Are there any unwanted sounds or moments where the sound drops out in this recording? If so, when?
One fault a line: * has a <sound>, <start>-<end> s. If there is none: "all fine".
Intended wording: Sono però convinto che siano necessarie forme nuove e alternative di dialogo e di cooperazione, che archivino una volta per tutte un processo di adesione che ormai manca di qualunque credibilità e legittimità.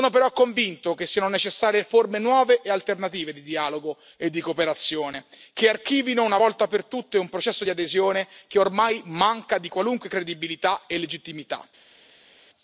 all fine